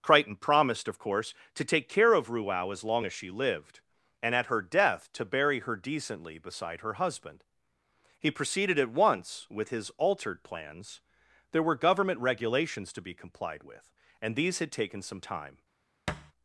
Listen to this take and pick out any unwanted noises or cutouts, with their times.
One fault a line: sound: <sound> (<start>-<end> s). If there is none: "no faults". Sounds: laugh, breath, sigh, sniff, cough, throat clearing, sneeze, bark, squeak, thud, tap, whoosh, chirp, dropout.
sound: thud (16.1-16.3 s)